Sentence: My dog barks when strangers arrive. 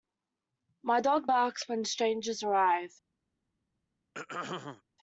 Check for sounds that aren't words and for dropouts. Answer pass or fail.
fail